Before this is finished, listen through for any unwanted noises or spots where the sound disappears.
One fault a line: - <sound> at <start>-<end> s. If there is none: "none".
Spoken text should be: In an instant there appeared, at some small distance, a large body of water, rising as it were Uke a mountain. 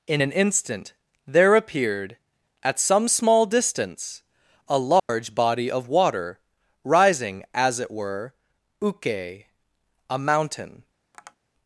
- dropout at 5.0-5.1 s
- tap at 11.1-11.4 s